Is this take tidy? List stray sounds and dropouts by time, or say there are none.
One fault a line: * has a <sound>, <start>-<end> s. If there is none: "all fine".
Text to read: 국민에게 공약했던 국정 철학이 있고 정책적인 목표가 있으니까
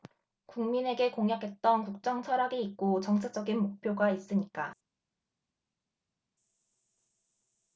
all fine